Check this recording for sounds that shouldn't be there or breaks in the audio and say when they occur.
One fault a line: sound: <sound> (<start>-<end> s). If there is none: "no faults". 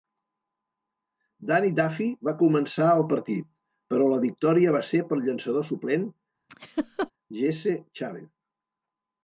sound: laugh (6.5-7.1 s)